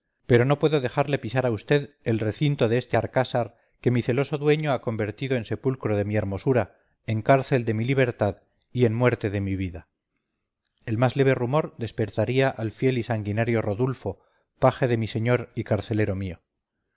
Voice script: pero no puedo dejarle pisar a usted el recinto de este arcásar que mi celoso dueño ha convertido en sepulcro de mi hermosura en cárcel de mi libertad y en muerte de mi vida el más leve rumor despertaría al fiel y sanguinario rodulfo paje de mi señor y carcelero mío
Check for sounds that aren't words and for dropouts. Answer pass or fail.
pass